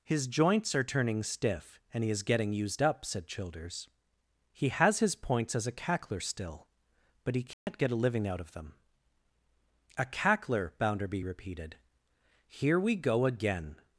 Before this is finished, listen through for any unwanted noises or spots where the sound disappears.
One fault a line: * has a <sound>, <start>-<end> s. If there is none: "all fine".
* has a dropout, 7.5-7.7 s